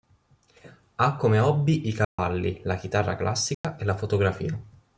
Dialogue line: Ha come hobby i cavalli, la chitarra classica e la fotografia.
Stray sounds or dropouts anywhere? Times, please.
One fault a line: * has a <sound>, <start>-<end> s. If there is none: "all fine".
* has a dropout, 2.0-2.2 s
* has a dropout, 3.5-3.6 s